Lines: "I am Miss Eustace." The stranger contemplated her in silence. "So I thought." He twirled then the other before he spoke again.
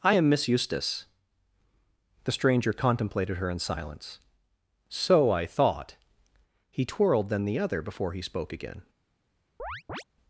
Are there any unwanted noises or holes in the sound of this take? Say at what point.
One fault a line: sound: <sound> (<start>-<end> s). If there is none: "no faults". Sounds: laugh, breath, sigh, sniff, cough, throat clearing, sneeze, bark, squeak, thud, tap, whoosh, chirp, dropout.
sound: chirp (9.6-10.0 s)